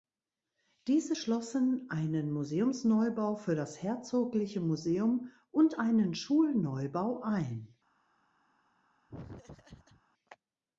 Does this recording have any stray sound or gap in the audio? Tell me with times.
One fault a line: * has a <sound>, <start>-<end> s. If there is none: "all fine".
* has a laugh, 9.1-10.0 s